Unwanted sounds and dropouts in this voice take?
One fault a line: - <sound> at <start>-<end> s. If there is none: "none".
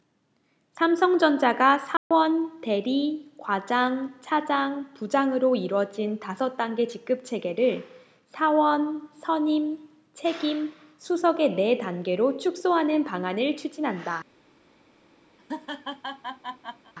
- dropout at 2.0-2.1 s
- laugh at 15.4-16.9 s